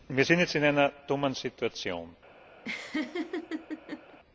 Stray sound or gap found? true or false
true